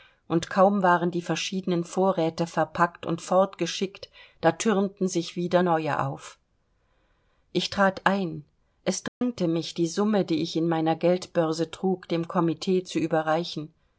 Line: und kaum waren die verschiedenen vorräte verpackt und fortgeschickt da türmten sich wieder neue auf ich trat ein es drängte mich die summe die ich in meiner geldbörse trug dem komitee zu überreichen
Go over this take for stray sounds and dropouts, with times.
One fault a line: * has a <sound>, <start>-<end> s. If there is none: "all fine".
* has a dropout, 9.1-9.2 s